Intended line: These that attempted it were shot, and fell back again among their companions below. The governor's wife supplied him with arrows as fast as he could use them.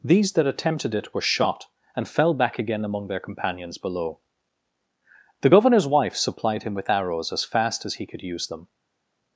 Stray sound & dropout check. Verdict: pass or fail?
pass